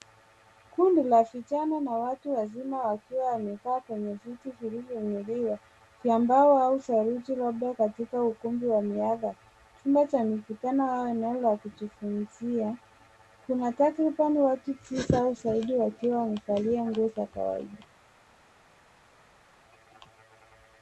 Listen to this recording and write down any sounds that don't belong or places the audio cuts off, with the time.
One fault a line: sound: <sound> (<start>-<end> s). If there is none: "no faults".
no faults